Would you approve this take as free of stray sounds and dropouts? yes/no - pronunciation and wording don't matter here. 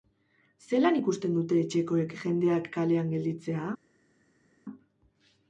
yes